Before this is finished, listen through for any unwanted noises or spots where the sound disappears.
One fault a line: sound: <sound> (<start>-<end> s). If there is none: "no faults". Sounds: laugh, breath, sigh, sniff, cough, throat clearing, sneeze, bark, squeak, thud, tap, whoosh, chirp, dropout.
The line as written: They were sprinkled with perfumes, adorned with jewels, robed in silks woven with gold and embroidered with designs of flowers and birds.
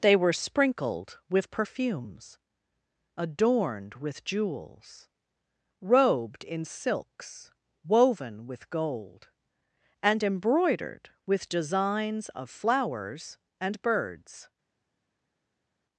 no faults